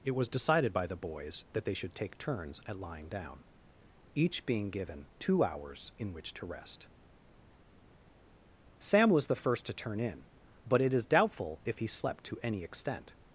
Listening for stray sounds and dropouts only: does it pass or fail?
pass